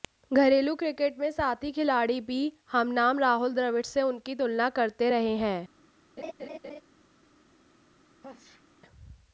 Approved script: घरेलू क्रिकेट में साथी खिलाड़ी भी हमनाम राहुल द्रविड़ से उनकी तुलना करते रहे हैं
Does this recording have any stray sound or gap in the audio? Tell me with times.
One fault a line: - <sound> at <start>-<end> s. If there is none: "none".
- laugh at 6.2-6.8 s
- sneeze at 8.2-8.6 s